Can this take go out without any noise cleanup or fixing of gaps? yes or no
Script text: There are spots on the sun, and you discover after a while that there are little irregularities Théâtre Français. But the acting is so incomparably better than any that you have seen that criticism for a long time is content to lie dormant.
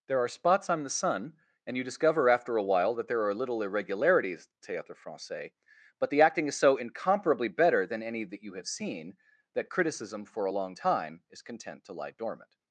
yes